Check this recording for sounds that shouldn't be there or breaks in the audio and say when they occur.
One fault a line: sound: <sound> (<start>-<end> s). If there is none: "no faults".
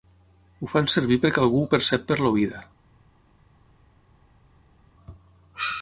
no faults